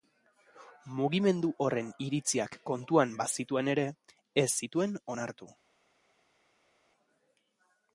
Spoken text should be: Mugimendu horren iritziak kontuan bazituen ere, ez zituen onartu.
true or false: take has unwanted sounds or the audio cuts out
false